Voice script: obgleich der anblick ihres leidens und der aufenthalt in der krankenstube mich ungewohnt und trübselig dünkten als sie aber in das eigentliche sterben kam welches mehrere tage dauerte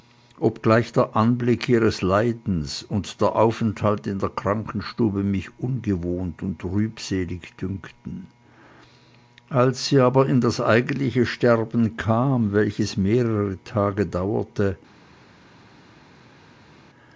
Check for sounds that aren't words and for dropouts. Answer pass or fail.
pass